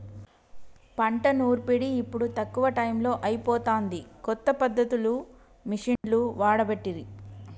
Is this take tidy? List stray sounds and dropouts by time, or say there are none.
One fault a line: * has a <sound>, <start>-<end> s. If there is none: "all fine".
* has a dropout, 6.0-6.0 s